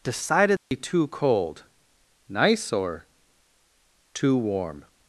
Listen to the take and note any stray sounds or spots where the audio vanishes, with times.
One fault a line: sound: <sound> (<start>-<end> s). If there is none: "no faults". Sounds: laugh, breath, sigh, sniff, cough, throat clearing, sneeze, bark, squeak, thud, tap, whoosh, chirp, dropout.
sound: dropout (0.6-0.7 s)